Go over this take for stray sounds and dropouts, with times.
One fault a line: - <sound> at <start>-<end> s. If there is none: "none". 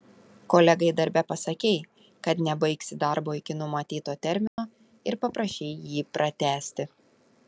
- dropout at 4.5-4.6 s